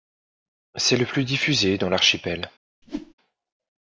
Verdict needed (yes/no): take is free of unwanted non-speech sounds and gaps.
no